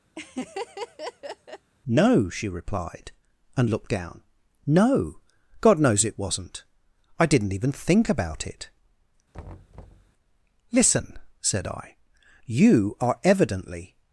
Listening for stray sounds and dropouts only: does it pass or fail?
fail